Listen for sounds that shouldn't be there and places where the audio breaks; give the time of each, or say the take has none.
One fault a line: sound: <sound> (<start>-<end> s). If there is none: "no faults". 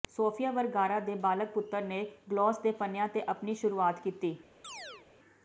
sound: chirp (4.6-5.1 s)